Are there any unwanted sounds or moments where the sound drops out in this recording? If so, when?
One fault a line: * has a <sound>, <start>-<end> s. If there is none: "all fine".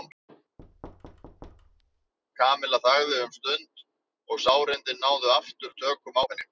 * has a thud, 0.6-2.1 s